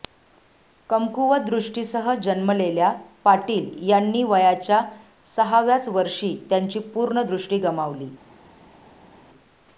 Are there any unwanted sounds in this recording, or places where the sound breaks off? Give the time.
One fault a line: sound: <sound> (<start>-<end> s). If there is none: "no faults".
no faults